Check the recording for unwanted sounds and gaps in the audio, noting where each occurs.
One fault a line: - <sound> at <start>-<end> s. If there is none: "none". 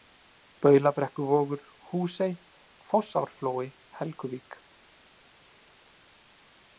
none